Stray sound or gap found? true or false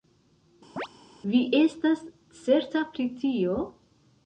true